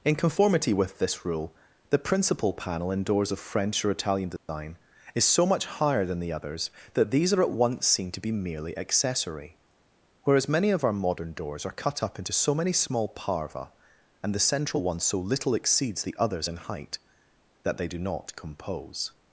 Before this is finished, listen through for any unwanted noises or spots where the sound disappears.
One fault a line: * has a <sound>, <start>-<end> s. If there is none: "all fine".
* has a dropout, 4.4-4.5 s